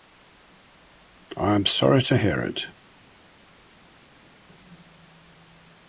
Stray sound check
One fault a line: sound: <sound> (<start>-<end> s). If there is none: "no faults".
no faults